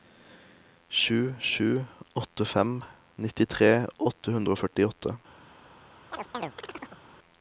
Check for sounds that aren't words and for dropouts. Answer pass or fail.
fail